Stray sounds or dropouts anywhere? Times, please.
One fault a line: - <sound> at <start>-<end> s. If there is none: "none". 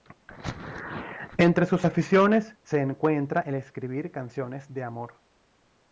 none